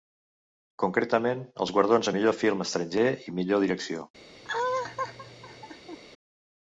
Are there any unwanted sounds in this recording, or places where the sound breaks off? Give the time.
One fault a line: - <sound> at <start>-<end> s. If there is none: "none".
- laugh at 4.4-6.0 s